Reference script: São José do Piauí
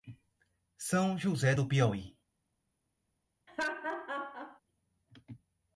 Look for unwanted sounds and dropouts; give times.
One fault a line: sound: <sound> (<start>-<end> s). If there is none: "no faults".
sound: laugh (3.5-4.6 s)